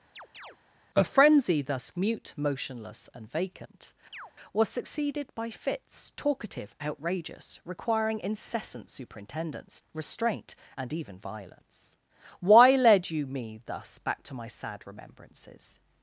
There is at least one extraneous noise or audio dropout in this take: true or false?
true